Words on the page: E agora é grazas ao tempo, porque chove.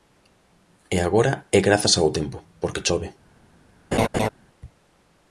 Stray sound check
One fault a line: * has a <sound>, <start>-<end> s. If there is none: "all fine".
* has a laugh, 3.9-4.3 s